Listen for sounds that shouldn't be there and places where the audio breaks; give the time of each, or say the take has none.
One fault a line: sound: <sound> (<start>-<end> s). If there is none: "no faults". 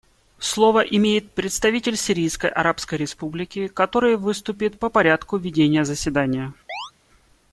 sound: chirp (6.7-6.9 s)